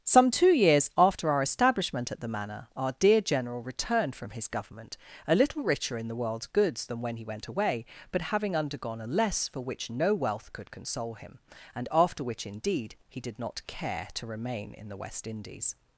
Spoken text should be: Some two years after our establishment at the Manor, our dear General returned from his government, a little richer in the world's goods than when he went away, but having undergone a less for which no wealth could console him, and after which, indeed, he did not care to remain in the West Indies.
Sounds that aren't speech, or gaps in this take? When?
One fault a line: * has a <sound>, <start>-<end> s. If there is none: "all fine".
all fine